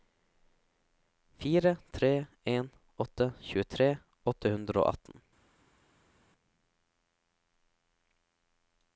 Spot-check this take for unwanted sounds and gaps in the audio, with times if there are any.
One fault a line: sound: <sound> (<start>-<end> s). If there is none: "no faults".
no faults